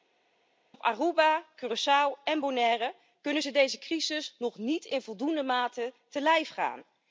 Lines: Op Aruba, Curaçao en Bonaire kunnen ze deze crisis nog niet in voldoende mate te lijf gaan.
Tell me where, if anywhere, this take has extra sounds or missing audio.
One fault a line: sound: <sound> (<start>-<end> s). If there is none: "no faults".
no faults